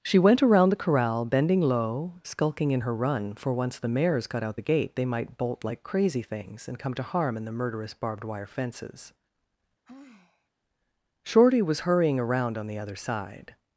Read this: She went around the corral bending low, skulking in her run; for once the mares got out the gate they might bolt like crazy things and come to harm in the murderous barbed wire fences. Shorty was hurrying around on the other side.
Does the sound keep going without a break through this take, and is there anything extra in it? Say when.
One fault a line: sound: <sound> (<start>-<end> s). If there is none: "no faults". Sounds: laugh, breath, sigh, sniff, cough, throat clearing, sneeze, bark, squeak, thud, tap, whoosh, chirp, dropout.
sound: sigh (9.9-10.5 s)